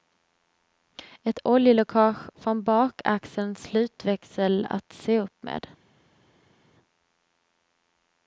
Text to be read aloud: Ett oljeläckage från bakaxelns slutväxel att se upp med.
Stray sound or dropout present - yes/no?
no